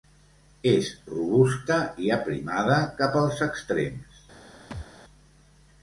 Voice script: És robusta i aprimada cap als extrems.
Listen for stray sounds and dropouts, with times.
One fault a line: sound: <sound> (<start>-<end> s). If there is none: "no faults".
sound: thud (4.7-4.9 s)